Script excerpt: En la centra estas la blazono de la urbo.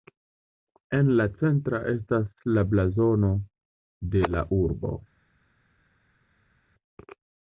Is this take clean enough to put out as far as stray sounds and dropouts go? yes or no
yes